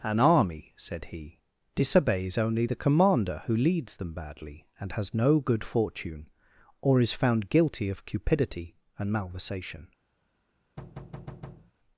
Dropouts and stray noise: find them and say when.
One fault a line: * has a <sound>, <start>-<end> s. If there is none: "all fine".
* has a thud, 10.8-11.7 s